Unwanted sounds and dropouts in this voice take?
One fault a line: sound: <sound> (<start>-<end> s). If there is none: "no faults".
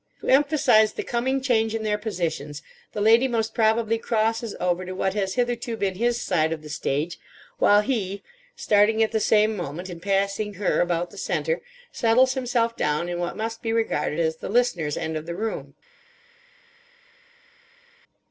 no faults